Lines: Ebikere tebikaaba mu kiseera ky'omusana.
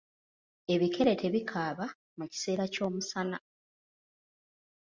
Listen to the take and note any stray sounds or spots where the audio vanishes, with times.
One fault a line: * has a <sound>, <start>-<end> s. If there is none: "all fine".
all fine